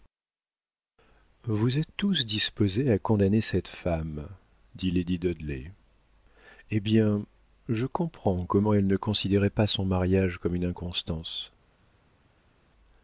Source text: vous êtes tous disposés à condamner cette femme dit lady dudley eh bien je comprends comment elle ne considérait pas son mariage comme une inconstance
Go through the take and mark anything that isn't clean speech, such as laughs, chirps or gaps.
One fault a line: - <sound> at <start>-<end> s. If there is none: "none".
none